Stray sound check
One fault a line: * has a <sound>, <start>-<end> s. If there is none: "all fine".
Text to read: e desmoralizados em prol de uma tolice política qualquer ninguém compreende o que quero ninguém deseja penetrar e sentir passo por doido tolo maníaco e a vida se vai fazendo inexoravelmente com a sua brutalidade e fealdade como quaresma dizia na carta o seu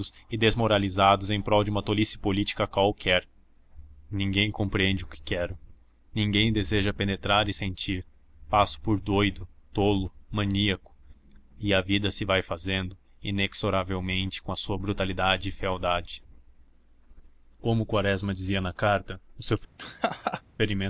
* has a laugh, 19.8-20.4 s